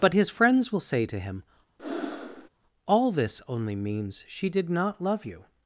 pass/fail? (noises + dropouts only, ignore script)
fail